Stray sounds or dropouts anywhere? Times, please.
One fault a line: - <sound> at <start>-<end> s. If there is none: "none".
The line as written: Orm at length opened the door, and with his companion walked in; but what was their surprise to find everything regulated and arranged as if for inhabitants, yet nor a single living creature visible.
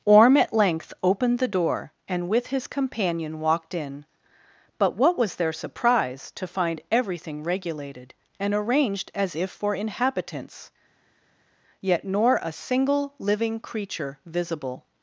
none